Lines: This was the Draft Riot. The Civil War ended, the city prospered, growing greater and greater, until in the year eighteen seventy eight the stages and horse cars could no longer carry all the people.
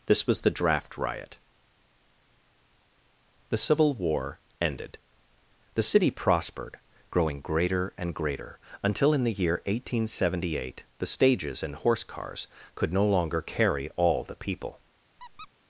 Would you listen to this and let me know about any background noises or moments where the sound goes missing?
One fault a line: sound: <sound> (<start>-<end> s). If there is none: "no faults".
sound: squeak (15.2-15.5 s)